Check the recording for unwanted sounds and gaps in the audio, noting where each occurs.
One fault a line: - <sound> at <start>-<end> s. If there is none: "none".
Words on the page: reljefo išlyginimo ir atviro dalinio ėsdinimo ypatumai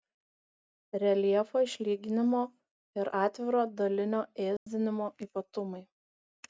- dropout at 4.6-4.7 s